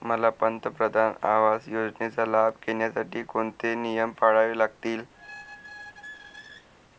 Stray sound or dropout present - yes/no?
yes